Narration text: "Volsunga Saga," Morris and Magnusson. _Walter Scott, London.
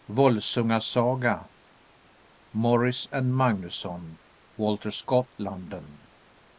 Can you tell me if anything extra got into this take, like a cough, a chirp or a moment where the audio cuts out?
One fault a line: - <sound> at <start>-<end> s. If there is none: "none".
none